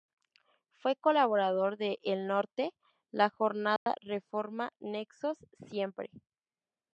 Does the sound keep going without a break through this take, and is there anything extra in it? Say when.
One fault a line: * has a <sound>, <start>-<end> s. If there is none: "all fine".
* has a dropout, 3.8-3.9 s